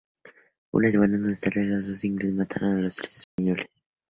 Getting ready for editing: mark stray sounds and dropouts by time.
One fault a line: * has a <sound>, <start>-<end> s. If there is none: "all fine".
* has a dropout, 3.2-3.4 s